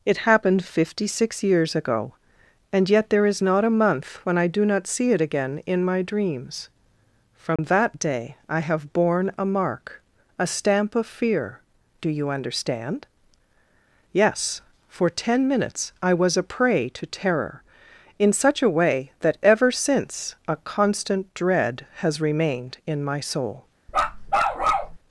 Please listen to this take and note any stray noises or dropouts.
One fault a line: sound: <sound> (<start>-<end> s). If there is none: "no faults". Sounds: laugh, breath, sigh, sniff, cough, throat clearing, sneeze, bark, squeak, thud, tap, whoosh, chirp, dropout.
sound: dropout (7.6-7.6 s)
sound: bark (23.9-25.0 s)